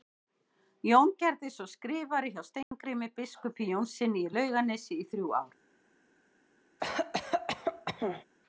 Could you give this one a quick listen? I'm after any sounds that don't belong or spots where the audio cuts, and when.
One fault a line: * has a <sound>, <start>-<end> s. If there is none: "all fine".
* has a dropout, 2.6-2.7 s
* has a cough, 6.8-8.2 s